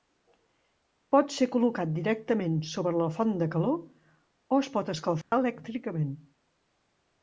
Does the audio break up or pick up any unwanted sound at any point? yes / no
yes